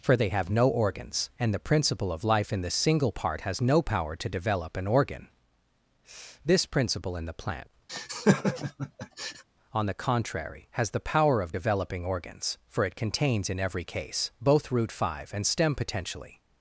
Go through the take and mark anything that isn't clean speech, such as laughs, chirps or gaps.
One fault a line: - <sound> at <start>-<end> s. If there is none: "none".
- laugh at 7.9-9.4 s